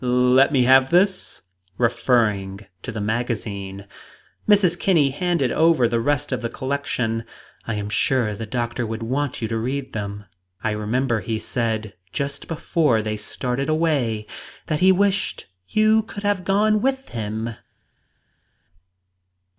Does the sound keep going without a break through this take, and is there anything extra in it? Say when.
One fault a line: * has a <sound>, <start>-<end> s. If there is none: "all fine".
all fine